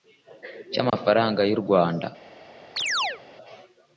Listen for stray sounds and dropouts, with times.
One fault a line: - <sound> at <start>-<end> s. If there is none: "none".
- dropout at 0.9-0.9 s
- chirp at 2.8-3.2 s